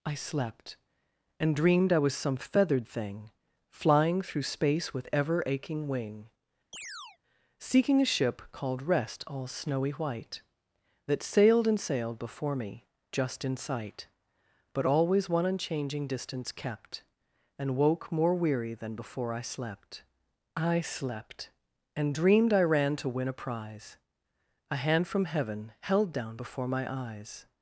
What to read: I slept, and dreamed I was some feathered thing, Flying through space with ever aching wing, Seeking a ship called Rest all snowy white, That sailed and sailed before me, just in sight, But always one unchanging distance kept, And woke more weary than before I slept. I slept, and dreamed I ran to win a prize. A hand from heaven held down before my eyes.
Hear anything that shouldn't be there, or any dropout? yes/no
yes